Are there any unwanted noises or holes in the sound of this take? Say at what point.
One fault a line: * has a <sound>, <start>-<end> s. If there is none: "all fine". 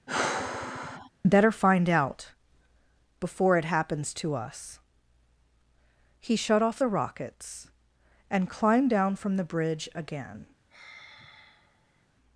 * has a sigh, 0.1-1.1 s
* has a sigh, 10.7-12.1 s